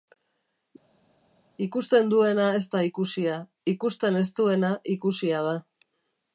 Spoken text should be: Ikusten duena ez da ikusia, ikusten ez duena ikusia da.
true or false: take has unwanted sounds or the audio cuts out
false